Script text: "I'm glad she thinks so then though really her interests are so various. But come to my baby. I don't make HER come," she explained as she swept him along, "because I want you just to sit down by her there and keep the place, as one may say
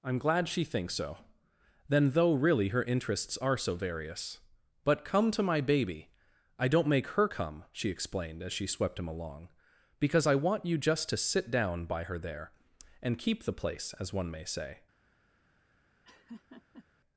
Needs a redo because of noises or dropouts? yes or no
yes